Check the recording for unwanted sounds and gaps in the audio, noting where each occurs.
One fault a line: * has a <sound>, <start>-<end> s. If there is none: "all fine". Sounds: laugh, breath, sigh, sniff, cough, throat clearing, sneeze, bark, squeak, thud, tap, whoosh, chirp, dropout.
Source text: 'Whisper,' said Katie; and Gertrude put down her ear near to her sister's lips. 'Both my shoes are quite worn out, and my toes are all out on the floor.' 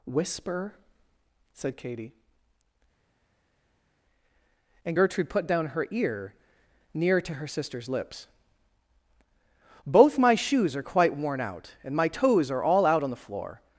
all fine